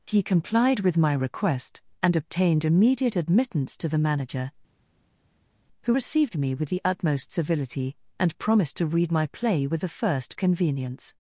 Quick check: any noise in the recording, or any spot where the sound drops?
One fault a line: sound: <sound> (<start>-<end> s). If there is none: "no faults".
no faults